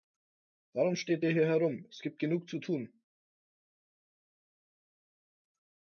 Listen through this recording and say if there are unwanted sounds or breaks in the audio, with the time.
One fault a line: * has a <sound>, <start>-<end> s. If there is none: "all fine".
all fine